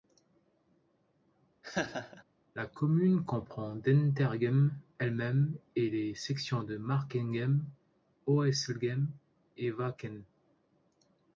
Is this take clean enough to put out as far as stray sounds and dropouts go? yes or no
no